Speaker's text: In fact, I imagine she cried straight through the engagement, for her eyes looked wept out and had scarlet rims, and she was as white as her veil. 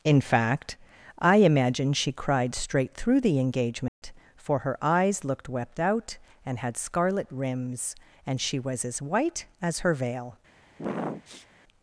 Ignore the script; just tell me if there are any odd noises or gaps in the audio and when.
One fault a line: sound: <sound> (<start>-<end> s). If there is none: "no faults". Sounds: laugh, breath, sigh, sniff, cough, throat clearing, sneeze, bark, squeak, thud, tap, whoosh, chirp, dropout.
sound: dropout (3.9-4.0 s)
sound: sniff (10.8-11.5 s)